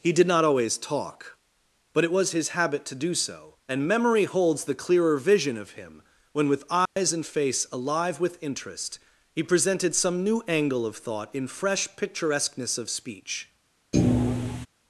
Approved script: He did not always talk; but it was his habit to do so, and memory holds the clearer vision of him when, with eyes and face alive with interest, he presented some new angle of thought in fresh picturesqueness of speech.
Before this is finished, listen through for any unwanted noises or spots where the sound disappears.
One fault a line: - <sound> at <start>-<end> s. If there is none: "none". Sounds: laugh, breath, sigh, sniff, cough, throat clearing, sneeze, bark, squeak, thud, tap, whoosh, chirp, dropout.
- dropout at 6.9-7.0 s
- thud at 13.9-14.7 s